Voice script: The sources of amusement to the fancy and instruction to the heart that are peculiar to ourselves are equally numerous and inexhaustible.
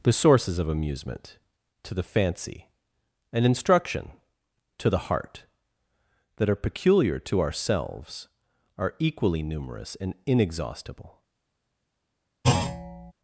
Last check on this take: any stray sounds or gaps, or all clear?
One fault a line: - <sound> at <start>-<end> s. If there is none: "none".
- thud at 12.4-13.1 s